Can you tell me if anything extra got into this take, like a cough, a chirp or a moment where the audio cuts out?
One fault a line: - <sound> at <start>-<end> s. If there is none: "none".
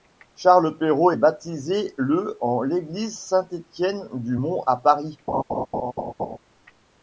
- laugh at 5.3-6.4 s